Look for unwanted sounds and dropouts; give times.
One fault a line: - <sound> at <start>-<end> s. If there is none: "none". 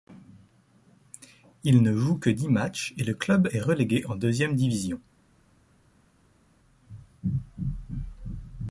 none